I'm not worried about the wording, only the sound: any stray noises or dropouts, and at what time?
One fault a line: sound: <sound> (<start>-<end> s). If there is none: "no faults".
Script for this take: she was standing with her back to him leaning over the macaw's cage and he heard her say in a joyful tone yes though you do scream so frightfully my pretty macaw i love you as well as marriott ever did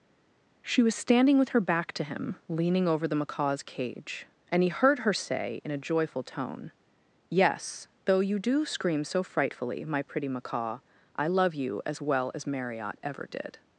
no faults